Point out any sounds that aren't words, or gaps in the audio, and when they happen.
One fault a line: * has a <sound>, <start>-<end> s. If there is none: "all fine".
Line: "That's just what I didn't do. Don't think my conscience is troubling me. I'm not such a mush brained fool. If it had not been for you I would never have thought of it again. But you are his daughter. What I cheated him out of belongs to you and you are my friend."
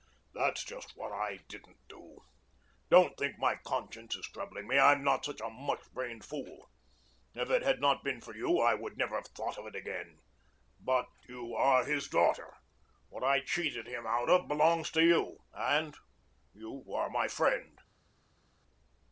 all fine